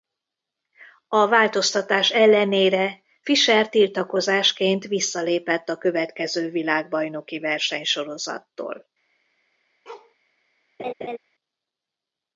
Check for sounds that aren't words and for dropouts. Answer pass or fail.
fail